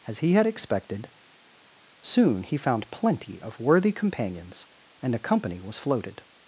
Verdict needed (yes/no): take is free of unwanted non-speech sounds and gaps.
yes